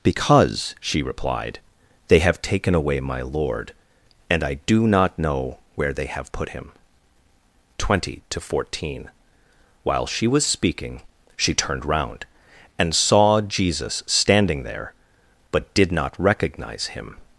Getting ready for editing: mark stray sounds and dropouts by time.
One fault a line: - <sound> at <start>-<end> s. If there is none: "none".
none